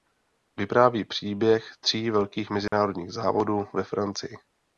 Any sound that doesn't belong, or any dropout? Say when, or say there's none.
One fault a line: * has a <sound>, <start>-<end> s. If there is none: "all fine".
* has a dropout, 2.7-2.7 s